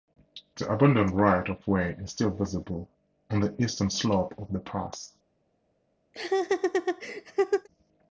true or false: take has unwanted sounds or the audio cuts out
true